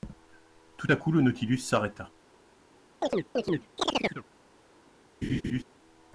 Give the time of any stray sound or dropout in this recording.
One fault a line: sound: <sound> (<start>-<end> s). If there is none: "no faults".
sound: chirp (3.0-4.3 s)
sound: laugh (5.2-5.6 s)